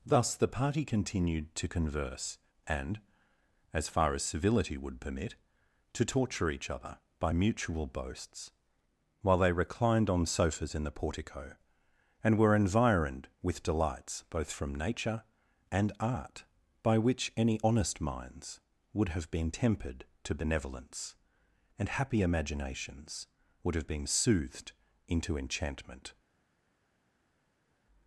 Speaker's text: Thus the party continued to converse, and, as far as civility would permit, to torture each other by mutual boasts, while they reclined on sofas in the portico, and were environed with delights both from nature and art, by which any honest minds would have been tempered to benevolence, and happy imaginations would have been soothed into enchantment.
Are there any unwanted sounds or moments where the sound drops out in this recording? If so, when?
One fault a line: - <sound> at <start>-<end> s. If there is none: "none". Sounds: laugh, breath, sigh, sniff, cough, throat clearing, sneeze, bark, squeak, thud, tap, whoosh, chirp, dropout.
none